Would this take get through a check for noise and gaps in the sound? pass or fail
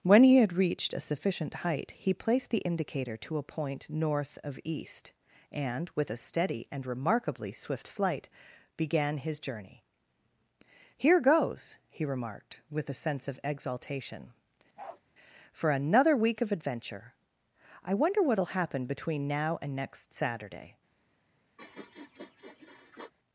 fail